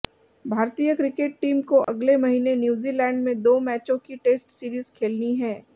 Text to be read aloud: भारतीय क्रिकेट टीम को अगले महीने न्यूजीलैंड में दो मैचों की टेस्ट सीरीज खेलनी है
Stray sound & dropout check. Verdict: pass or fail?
fail